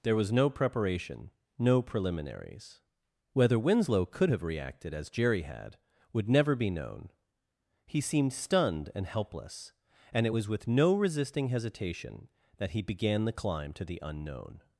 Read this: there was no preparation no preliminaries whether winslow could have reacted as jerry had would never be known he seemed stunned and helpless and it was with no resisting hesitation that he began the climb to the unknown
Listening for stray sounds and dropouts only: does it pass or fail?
pass